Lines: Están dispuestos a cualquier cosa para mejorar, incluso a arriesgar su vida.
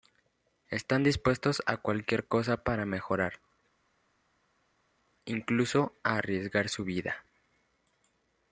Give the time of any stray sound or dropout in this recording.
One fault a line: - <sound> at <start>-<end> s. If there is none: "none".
none